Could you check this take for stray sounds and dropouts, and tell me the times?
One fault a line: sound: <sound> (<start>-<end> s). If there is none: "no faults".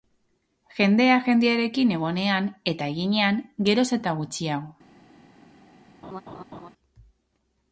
sound: laugh (6.0-6.7 s)